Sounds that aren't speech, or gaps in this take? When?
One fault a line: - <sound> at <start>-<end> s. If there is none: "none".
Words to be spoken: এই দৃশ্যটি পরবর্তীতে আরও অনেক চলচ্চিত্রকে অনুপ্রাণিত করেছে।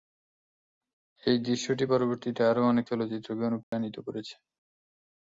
- dropout at 3.6-3.7 s